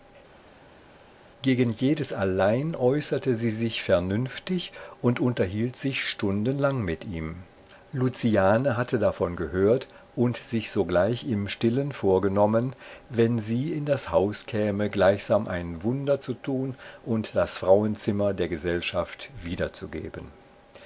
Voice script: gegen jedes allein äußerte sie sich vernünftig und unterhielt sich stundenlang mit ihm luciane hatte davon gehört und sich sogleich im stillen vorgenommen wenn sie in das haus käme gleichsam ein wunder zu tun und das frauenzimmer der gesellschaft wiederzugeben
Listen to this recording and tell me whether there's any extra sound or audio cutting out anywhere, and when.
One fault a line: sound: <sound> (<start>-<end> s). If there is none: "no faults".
no faults